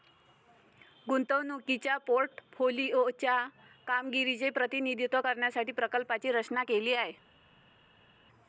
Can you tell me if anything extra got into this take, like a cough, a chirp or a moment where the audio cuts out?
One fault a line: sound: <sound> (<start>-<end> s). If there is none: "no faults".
no faults